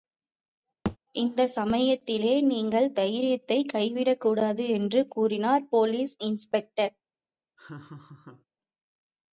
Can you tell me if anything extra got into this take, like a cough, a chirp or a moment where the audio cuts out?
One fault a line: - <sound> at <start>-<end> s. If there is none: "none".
- thud at 0.8-1.0 s
- laugh at 7.6-8.5 s